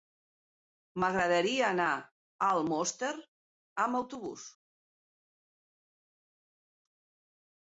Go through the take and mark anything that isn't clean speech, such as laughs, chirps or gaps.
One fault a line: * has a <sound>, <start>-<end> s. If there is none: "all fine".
all fine